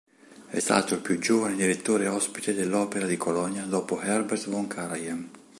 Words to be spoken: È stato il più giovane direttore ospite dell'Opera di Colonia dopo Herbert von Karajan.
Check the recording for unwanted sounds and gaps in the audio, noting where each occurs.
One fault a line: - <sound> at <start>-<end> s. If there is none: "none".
none